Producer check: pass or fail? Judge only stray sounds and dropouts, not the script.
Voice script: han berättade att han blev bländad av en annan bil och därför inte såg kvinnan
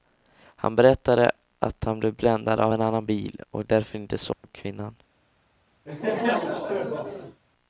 fail